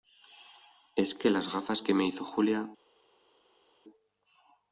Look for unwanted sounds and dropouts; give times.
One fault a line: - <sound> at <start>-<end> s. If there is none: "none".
none